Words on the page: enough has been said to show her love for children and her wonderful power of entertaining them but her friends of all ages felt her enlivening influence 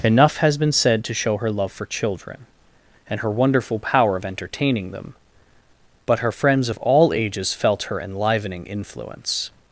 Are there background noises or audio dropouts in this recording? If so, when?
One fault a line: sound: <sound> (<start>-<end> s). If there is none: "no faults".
no faults